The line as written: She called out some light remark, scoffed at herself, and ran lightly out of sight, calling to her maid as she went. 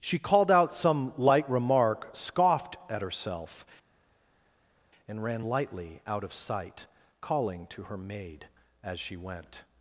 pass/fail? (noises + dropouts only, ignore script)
pass